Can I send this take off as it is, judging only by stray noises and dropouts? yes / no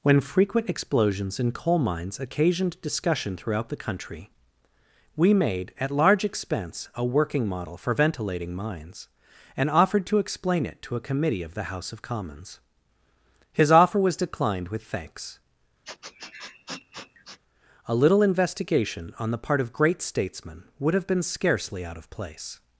no